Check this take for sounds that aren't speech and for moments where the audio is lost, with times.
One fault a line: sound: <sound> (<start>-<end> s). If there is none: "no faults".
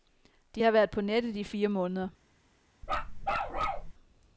sound: bark (2.8-3.9 s)